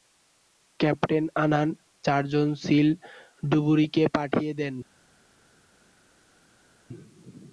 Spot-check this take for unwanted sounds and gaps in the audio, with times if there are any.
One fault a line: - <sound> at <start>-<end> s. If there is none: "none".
none